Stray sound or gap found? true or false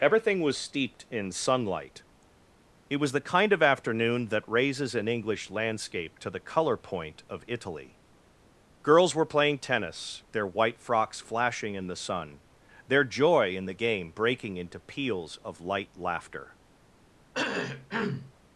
true